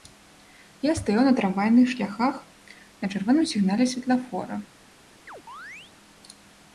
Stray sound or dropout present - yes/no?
yes